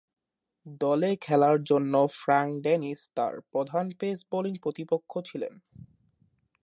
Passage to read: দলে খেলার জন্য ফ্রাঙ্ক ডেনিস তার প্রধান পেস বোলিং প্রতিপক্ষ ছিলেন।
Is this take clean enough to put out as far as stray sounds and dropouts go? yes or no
yes